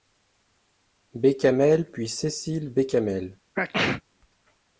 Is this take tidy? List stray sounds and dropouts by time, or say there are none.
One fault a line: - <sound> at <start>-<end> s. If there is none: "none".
- sneeze at 3.5-4.0 s